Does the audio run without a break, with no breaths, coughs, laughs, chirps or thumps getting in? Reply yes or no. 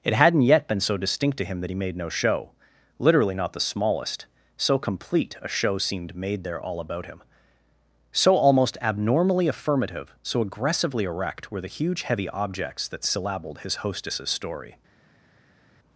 yes